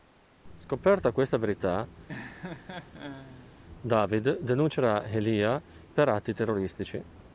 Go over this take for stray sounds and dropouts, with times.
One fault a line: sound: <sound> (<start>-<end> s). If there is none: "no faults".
sound: laugh (2.1-3.5 s)